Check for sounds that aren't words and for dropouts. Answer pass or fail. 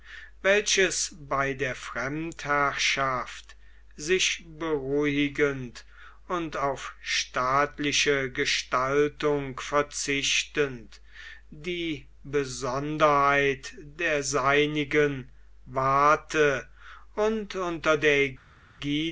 pass